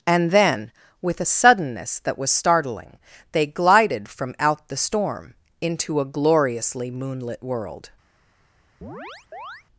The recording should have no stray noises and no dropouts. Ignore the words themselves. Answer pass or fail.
fail